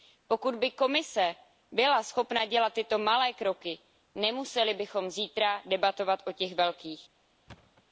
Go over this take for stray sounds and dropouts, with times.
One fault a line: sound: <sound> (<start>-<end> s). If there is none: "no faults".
sound: thud (7.5-7.8 s)